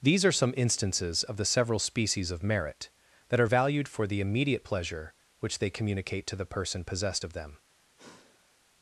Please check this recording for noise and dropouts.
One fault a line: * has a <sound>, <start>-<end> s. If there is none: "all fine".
* has a sigh, 8.0-8.6 s